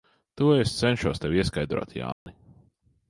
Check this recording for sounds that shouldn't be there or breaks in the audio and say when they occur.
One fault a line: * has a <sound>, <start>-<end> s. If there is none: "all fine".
* has a dropout, 2.1-2.3 s